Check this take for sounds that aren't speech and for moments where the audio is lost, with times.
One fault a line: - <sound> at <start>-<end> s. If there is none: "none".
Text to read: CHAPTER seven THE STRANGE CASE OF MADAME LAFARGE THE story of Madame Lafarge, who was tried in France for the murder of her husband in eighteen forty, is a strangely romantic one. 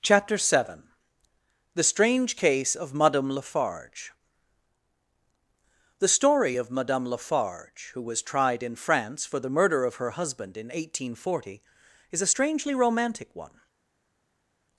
none